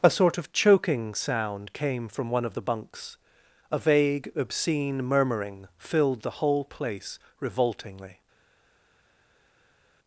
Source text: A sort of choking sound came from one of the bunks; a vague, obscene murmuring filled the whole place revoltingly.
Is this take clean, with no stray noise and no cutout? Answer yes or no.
yes